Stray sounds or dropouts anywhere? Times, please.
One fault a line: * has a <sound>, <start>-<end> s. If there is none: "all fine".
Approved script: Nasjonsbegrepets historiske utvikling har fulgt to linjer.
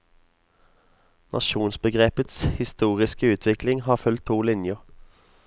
all fine